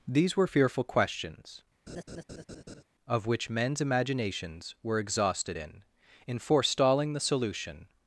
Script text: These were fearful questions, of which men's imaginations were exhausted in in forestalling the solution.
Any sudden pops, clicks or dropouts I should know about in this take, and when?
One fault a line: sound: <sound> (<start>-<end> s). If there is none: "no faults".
sound: laugh (1.9-2.8 s)